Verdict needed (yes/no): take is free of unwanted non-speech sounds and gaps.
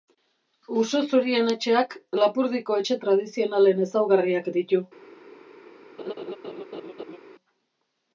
no